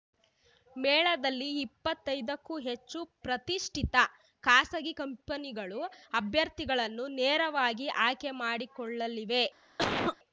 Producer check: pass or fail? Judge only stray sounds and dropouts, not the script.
fail